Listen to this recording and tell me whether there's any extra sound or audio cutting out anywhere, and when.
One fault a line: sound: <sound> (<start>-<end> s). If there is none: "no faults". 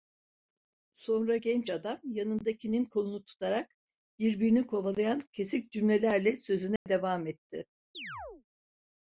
sound: dropout (6.8-6.9 s)
sound: chirp (7.9-8.4 s)